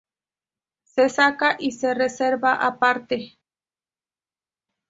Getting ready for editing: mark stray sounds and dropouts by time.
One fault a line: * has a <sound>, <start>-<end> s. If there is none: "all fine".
all fine